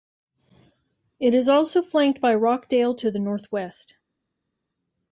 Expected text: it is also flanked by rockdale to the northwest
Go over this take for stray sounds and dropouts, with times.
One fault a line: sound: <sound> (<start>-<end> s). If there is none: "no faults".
no faults